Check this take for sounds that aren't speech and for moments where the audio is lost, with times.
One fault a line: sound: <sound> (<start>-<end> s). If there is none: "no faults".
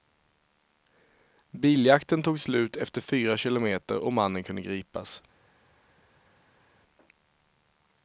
no faults